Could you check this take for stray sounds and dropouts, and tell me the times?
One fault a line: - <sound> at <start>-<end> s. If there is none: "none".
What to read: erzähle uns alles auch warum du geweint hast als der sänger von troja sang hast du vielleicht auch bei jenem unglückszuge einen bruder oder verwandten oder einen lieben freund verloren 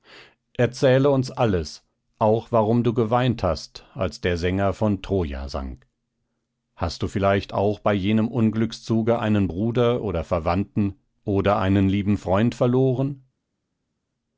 none